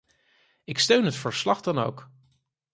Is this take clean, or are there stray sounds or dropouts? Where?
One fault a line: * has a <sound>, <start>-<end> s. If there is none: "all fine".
all fine